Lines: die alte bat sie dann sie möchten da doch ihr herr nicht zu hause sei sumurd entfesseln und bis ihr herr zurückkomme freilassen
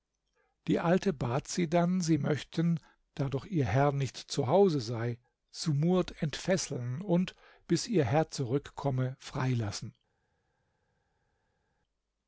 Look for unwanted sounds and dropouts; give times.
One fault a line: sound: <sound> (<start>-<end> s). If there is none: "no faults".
no faults